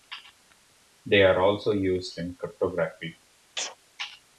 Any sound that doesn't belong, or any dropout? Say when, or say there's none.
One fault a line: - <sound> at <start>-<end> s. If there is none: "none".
- sneeze at 3.6-3.8 s